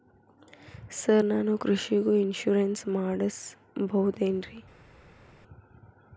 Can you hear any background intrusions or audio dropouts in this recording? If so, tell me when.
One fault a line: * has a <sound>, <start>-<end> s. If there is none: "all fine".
all fine